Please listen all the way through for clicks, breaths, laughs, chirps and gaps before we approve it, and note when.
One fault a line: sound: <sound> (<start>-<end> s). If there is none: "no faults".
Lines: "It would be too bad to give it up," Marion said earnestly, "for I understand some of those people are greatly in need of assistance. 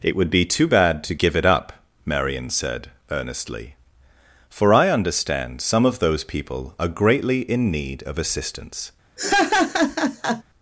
sound: laugh (9.2-10.4 s)